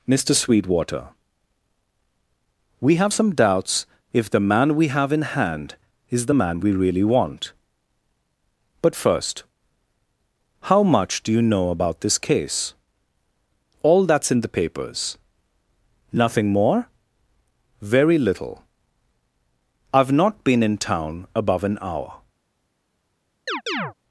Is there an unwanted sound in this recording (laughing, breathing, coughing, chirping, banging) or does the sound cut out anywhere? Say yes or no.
yes